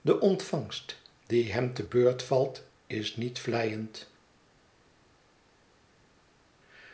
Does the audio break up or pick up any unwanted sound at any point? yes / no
no